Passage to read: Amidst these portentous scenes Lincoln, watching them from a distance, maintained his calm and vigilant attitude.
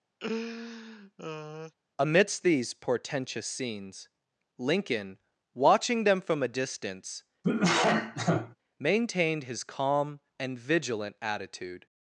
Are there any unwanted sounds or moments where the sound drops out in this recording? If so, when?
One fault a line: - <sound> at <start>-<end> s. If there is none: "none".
- laugh at 0.2-1.7 s
- cough at 7.4-8.6 s